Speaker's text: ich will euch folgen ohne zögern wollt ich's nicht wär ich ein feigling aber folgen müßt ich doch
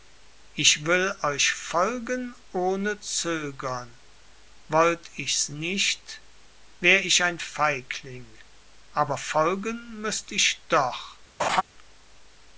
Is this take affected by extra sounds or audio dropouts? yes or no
yes